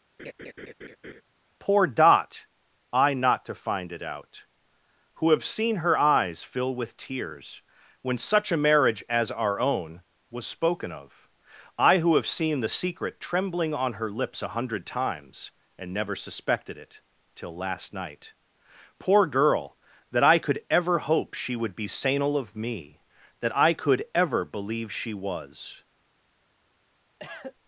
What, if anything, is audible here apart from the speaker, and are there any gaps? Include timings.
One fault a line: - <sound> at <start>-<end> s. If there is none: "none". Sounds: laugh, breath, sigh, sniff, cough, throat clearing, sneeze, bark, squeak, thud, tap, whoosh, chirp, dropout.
- laugh at 0.2-1.2 s
- cough at 27.2-27.5 s